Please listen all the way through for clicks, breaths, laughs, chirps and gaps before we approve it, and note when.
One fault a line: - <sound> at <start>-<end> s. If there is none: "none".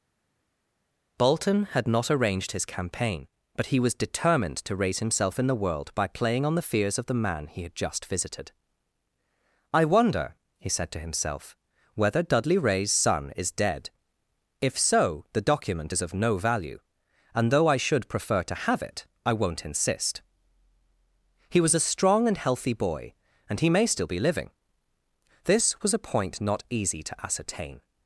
none